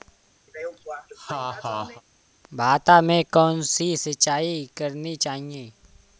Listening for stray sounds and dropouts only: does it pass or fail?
fail